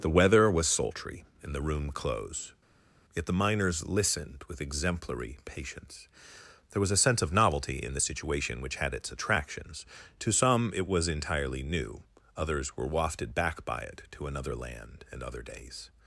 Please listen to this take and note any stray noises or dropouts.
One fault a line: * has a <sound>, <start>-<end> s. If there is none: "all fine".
all fine